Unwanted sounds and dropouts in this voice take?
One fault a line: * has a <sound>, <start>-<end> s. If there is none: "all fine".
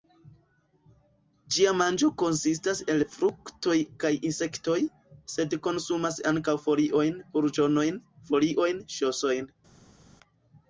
all fine